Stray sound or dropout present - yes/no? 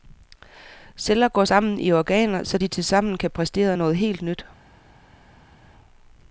no